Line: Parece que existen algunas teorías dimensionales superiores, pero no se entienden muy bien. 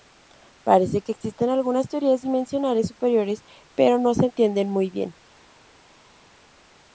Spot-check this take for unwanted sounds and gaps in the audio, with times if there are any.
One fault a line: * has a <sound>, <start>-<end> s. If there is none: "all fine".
all fine